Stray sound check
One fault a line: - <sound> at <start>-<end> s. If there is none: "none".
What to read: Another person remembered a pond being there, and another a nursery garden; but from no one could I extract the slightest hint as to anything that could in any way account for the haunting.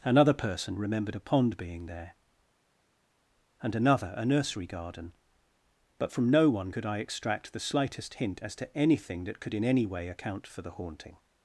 none